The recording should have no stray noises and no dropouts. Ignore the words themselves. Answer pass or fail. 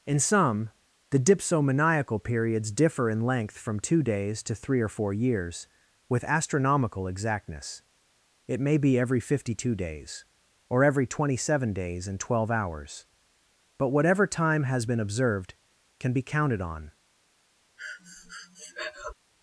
fail